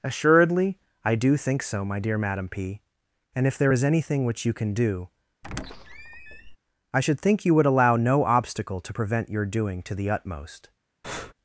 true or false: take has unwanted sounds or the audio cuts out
true